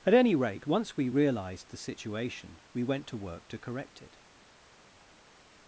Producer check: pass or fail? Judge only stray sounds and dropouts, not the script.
pass